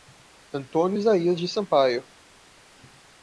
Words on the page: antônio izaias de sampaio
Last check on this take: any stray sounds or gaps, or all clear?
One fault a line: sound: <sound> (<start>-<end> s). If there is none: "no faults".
no faults